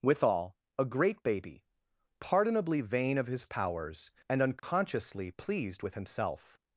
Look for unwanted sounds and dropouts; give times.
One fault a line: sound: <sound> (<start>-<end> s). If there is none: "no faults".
sound: dropout (4.6-4.6 s)